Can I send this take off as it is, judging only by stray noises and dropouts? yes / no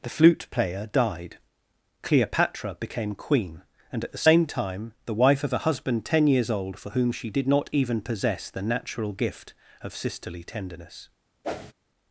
no